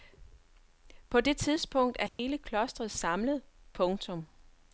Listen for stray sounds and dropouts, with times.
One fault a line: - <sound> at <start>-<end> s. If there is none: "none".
- dropout at 2.1-2.2 s